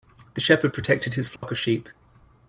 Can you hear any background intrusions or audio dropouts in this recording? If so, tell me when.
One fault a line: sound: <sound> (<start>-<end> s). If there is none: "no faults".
sound: dropout (1.4-1.4 s)